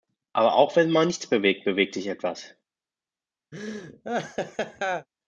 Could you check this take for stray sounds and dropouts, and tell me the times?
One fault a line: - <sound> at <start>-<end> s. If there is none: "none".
- laugh at 3.5-5.1 s